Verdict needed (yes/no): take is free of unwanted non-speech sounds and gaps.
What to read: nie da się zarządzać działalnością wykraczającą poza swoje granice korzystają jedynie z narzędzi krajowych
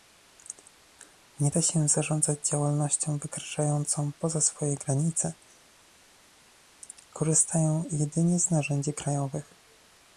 yes